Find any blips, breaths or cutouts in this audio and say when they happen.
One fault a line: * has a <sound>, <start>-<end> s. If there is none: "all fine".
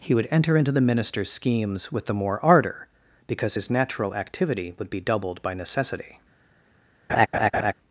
* has a laugh, 7.1-7.7 s